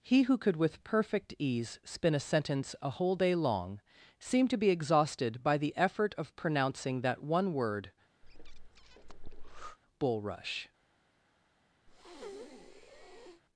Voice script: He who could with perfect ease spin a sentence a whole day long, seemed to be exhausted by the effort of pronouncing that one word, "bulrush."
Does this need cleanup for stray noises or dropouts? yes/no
yes